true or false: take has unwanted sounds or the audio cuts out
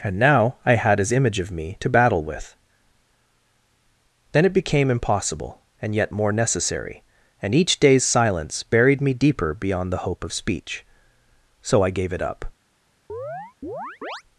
true